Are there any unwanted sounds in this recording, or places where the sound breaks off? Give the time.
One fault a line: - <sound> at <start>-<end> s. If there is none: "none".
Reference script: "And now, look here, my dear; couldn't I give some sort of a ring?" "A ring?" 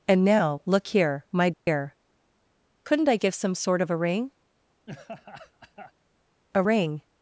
- dropout at 1.5-1.7 s
- laugh at 4.9-5.9 s